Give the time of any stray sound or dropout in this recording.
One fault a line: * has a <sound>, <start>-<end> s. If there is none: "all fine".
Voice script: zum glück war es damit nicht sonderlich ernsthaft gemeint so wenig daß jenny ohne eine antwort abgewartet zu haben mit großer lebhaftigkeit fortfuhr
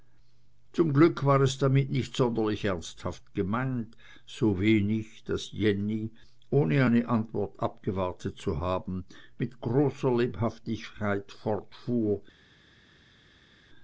all fine